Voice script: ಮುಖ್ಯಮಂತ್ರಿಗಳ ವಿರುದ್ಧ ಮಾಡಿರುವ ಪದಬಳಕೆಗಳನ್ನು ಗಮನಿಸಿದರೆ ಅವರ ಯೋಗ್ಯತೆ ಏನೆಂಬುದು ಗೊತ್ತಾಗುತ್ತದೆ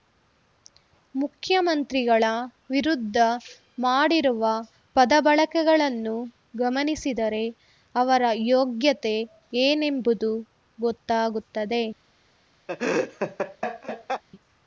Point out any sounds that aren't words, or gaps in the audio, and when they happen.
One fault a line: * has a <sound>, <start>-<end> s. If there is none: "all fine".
* has a laugh, 12.7-14.2 s